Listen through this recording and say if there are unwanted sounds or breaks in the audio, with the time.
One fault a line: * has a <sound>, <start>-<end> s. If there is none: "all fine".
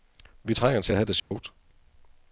* has a dropout, 1.2-1.3 s